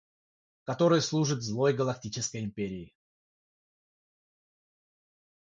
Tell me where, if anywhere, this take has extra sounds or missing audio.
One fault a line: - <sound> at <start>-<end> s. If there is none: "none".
none